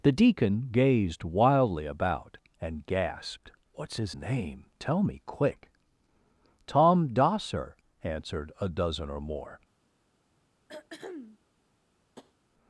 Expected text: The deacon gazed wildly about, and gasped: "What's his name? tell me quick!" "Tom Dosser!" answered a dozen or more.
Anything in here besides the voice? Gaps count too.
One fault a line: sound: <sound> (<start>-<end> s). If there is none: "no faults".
sound: throat clearing (10.7-11.4 s)
sound: tap (12.2-12.3 s)